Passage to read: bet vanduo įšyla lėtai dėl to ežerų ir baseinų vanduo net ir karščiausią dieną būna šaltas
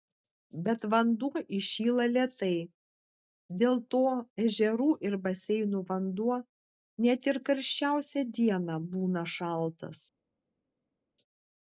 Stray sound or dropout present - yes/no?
no